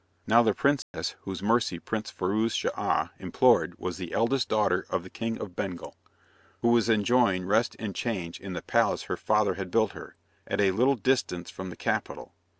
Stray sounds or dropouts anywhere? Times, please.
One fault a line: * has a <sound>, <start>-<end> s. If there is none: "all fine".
* has a dropout, 0.8-0.9 s